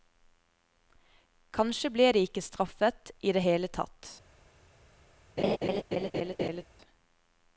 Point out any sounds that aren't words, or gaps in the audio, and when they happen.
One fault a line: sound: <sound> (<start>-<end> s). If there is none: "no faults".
sound: laugh (5.4-6.6 s)